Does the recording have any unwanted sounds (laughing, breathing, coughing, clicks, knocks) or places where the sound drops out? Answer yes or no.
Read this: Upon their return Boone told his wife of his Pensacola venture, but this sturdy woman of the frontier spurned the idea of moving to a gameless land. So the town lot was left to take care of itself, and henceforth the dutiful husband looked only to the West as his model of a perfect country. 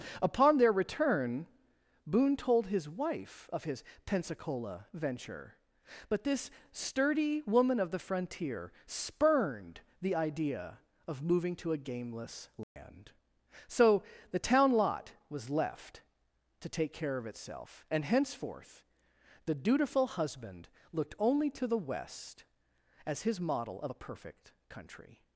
yes